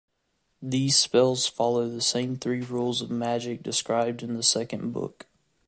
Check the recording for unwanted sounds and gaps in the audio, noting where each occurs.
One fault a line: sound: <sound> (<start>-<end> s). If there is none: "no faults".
no faults